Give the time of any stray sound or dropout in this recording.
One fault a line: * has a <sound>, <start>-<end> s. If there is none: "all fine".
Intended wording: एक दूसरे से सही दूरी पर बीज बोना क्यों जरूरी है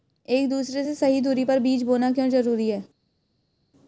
all fine